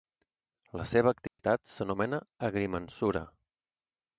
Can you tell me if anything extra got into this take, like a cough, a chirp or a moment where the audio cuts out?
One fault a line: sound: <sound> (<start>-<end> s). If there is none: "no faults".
sound: dropout (1.3-1.4 s)